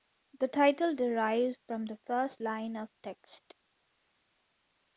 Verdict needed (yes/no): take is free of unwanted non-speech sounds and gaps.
yes